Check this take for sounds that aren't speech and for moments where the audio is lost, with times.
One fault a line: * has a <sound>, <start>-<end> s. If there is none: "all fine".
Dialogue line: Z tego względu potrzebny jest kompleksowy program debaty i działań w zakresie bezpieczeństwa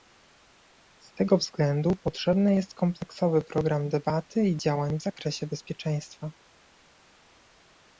all fine